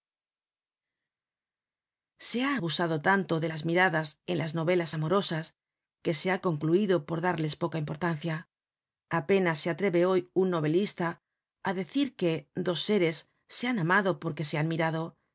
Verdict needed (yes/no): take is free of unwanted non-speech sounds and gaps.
yes